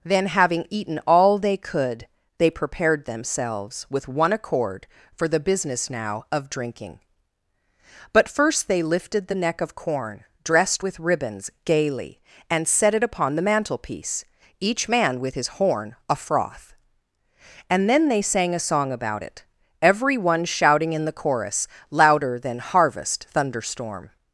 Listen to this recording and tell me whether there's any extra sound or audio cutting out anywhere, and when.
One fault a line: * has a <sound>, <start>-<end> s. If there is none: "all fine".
all fine